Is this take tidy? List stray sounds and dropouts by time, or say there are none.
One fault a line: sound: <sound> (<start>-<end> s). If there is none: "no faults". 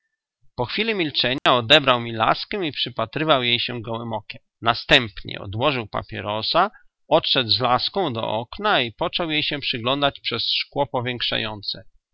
sound: dropout (1.4-1.5 s)